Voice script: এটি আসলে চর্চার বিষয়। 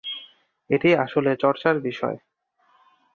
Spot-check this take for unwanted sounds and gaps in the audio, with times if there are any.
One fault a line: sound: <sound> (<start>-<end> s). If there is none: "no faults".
no faults